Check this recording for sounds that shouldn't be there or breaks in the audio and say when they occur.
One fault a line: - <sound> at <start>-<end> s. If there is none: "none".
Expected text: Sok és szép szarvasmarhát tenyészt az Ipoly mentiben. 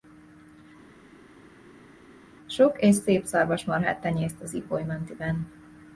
none